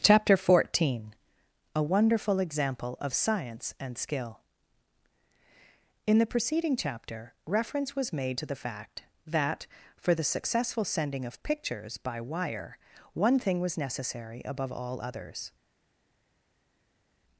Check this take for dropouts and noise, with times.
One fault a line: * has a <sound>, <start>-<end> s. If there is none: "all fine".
all fine